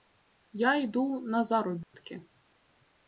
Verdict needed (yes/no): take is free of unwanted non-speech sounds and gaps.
no